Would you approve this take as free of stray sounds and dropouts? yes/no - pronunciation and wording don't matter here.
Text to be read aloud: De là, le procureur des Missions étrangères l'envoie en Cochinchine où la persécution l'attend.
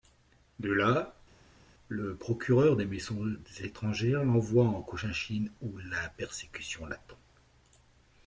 yes